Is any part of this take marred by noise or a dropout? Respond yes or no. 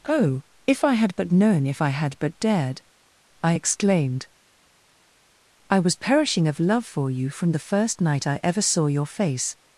no